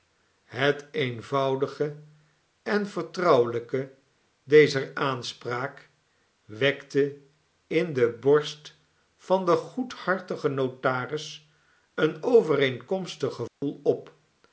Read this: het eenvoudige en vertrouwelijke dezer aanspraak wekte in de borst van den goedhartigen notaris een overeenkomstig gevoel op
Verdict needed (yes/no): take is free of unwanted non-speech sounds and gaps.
no